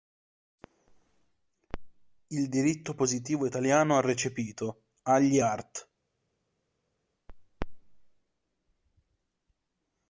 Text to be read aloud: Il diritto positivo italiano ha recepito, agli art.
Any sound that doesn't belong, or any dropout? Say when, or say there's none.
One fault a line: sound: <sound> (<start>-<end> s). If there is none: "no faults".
no faults